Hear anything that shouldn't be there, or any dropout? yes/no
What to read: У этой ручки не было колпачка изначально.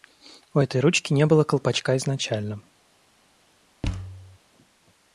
yes